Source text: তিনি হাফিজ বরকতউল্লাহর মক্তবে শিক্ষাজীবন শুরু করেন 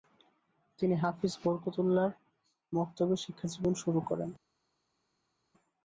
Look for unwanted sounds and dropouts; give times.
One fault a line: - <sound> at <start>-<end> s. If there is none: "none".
none